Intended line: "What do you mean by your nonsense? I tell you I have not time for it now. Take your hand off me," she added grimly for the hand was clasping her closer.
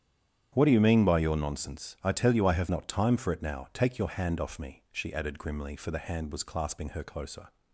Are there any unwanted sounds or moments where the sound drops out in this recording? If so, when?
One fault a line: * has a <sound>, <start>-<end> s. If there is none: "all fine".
all fine